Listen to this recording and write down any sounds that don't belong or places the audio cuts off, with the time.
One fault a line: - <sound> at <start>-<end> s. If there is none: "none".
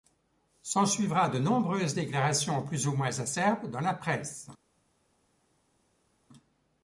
none